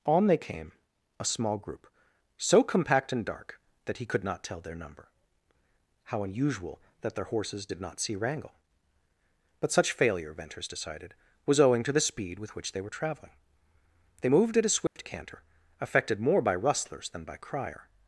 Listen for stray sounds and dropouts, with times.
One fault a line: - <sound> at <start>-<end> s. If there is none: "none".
- dropout at 14.9-15.0 s